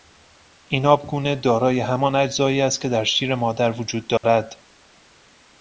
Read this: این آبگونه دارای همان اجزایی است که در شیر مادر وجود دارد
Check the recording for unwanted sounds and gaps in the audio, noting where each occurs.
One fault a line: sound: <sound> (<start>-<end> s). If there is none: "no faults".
sound: dropout (4.2-4.2 s)